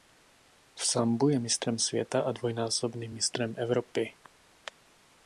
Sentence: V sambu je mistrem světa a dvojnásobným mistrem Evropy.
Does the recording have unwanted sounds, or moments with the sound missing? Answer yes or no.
no